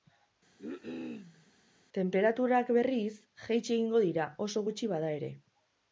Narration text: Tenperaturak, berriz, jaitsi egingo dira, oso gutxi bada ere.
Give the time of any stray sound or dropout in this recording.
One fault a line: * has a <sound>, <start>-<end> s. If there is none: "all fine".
* has a cough, 0.6-1.5 s